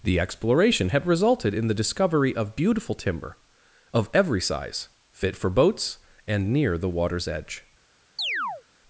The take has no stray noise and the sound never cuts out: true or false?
false